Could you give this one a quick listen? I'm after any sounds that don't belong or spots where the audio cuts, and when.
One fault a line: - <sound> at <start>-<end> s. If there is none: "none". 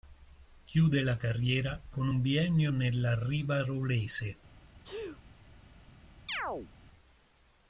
- sneeze at 4.8-5.2 s
- chirp at 6.3-6.7 s